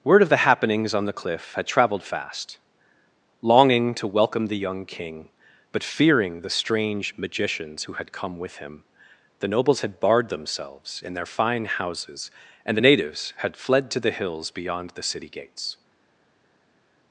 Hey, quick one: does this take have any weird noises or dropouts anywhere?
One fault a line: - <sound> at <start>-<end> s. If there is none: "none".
none